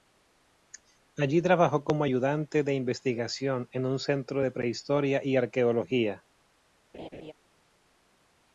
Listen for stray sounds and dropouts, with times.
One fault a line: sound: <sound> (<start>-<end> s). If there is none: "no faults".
sound: laugh (6.9-7.3 s)